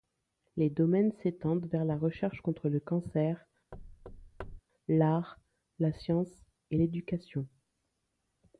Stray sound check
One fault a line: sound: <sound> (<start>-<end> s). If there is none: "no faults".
sound: thud (3.7-4.6 s)